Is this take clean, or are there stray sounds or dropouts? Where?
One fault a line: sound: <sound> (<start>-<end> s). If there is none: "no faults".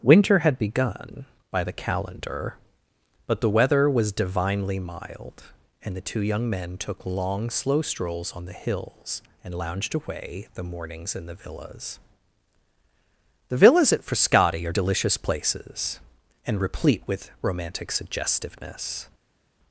no faults